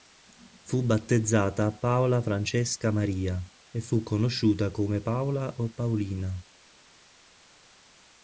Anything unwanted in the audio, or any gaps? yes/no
no